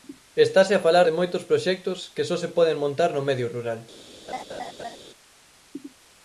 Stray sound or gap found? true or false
true